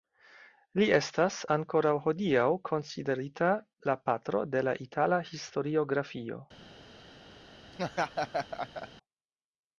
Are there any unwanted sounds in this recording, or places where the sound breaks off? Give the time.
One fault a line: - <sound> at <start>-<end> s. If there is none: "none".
- laugh at 7.7-8.9 s